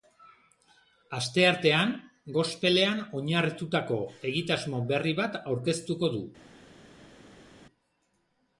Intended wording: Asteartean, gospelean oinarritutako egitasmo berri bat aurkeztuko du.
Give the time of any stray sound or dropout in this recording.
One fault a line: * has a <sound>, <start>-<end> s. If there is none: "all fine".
all fine